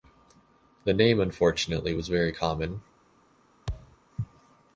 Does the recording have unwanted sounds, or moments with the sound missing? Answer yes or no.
yes